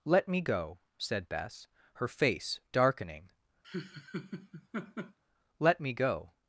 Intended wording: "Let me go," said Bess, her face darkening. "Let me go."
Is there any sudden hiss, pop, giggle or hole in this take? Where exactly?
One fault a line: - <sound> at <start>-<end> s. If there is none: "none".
- laugh at 3.6-5.2 s